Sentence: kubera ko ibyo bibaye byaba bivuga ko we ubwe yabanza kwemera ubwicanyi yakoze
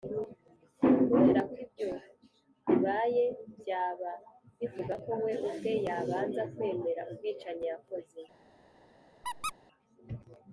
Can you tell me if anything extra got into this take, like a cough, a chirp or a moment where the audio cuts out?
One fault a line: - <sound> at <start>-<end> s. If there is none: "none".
- squeak at 9.2-9.5 s